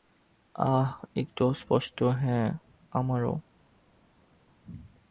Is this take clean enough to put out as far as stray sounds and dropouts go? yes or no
yes